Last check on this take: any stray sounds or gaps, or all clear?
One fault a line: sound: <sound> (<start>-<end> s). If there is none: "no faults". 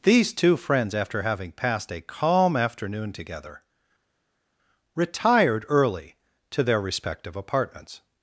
no faults